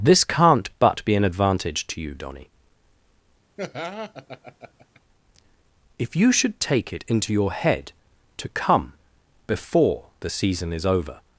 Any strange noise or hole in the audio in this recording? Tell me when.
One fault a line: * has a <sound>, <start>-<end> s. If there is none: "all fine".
* has a laugh, 3.6-5.0 s